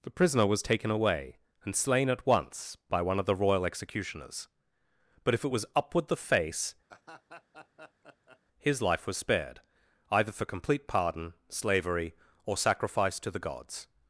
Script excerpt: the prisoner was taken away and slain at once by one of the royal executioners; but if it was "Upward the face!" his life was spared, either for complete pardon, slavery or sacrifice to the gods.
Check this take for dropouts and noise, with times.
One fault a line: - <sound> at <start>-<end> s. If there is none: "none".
- laugh at 6.9-8.4 s